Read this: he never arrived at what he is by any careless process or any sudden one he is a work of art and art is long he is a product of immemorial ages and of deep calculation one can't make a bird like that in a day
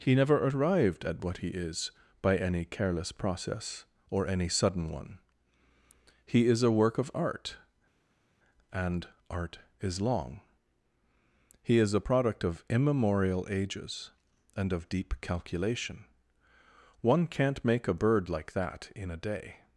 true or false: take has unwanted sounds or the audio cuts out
false